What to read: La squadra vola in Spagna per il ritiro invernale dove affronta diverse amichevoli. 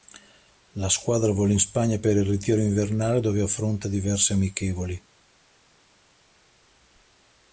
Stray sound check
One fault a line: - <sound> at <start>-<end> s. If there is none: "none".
none